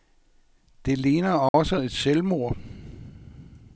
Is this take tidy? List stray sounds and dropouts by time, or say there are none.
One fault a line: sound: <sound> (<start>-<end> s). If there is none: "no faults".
sound: dropout (1.5-1.5 s)